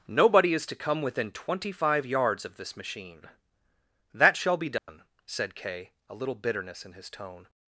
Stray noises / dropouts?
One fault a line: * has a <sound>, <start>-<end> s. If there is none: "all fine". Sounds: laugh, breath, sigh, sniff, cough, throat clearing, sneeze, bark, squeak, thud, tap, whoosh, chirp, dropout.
* has a dropout, 4.8-4.9 s